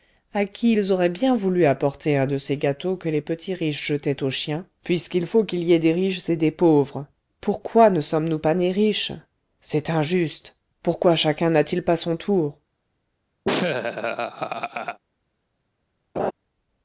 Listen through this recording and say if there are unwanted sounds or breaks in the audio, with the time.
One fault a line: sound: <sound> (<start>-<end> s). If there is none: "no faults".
sound: laugh (13.4-15.0 s)
sound: laugh (16.2-16.3 s)